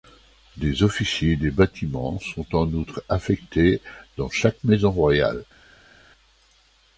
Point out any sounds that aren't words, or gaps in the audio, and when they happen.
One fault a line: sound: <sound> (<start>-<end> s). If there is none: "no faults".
no faults